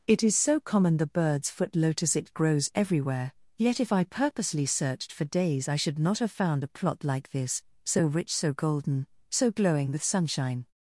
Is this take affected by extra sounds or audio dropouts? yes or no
no